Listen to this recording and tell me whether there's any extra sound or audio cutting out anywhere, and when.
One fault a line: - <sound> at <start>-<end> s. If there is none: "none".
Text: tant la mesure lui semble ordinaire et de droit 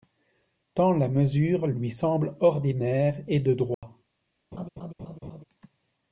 - dropout at 3.7-3.8 s
- laugh at 4.5-5.4 s